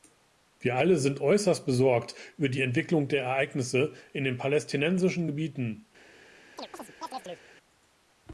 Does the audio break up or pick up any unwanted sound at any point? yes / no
yes